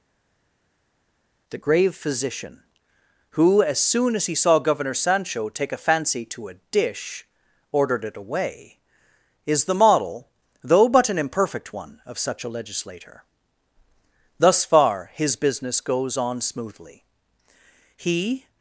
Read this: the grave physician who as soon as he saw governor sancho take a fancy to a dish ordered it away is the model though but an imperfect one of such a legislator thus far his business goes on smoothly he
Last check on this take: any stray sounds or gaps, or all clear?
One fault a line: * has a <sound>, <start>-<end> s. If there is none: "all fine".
all fine